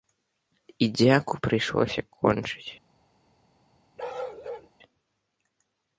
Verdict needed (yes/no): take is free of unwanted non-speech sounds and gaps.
no